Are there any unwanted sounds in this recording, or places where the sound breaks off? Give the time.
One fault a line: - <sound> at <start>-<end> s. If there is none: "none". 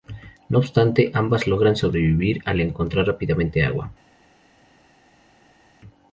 none